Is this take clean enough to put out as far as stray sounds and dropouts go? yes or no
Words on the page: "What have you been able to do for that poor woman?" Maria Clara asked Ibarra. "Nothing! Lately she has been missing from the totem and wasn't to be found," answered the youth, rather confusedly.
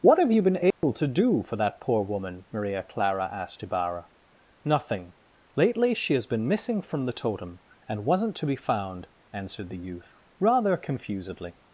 no